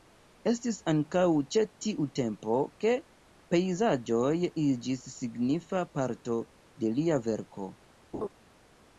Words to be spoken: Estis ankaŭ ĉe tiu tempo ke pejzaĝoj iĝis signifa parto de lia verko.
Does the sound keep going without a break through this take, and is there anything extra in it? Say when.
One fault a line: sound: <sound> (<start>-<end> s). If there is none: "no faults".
sound: laugh (8.1-8.3 s)